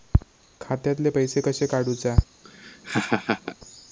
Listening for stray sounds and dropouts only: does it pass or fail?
fail